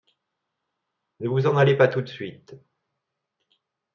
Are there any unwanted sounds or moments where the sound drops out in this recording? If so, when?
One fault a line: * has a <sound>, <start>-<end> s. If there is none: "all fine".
all fine